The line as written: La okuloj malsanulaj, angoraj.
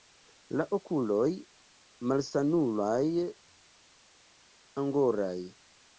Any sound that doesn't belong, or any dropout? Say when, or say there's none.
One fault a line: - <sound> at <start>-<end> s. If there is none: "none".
none